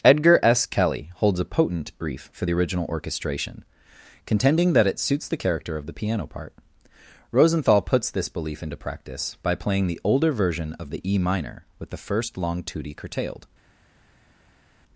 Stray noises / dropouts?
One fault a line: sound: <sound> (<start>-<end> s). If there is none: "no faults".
no faults